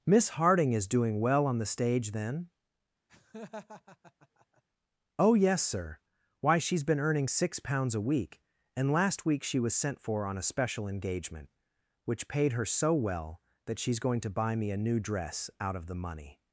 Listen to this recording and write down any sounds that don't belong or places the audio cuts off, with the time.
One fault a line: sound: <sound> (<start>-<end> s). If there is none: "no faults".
sound: laugh (3.1-4.6 s)